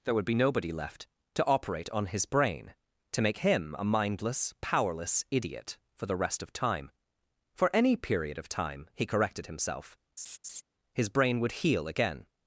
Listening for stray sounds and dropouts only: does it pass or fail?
fail